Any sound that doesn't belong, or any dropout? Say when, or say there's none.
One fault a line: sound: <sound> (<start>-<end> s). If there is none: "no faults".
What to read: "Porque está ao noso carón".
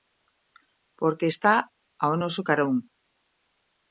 no faults